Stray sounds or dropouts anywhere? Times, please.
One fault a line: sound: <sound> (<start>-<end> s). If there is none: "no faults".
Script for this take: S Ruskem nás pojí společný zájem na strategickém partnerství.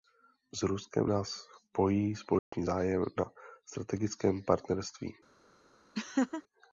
sound: dropout (2.4-2.5 s)
sound: laugh (5.9-6.4 s)